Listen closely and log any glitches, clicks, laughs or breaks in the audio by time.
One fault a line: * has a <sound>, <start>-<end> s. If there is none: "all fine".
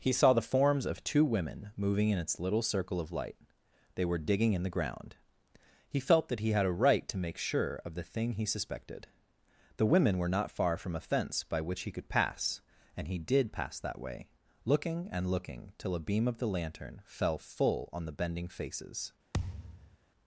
* has a thud, 19.3-20.0 s